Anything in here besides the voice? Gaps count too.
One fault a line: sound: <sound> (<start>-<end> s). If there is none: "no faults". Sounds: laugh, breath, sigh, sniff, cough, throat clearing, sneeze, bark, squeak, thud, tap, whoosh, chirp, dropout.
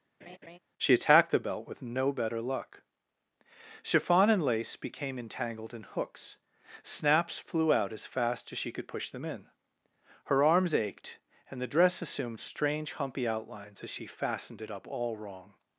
sound: laugh (0.2-0.6 s)